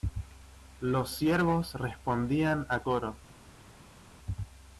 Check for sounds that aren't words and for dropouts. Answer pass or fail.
pass